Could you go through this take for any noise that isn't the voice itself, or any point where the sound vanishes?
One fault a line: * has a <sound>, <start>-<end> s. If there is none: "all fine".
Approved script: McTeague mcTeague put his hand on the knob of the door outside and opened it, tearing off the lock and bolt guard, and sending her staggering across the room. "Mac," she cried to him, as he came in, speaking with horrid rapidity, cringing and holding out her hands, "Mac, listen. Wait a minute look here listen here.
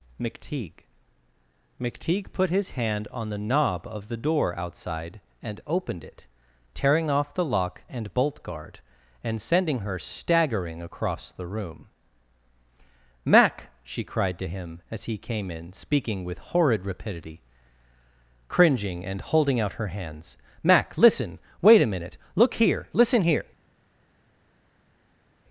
all fine